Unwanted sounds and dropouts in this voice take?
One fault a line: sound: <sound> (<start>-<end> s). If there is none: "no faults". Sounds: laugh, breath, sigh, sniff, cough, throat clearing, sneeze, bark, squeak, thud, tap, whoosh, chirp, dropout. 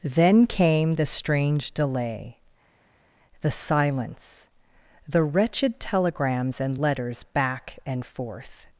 no faults